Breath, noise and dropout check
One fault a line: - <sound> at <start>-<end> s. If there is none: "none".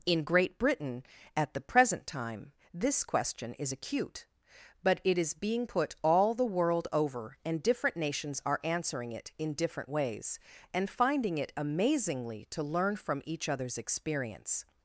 none